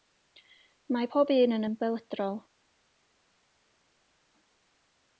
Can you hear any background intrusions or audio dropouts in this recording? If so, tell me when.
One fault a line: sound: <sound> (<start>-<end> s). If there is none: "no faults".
no faults